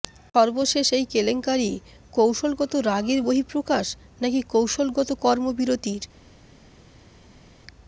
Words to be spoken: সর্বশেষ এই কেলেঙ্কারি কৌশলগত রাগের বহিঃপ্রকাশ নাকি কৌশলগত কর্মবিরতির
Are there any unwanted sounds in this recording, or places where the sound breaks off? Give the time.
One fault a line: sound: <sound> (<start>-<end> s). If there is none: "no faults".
no faults